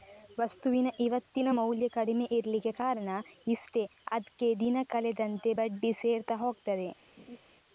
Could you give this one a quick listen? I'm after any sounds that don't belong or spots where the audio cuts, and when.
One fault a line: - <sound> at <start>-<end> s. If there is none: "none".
- laugh at 7.2-7.4 s